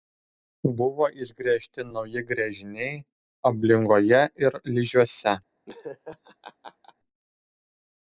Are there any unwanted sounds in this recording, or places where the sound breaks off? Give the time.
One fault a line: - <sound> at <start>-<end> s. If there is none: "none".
- laugh at 5.7-6.9 s